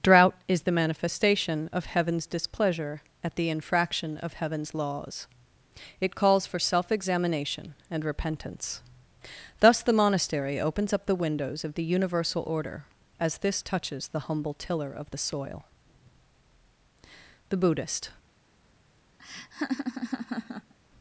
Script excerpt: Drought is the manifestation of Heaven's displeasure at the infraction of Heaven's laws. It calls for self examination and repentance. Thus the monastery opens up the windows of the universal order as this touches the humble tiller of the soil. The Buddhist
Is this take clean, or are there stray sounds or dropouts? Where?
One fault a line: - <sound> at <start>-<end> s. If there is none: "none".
- laugh at 19.2-20.7 s